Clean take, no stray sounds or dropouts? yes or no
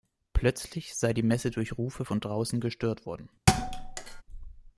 no